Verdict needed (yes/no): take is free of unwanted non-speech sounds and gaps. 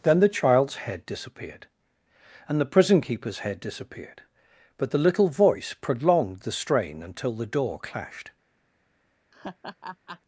no